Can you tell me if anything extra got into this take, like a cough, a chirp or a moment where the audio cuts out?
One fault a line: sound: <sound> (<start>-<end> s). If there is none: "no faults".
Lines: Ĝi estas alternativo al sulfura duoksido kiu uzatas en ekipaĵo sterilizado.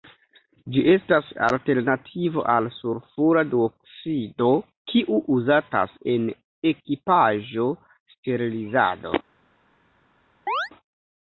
sound: chirp (10.5-10.7 s)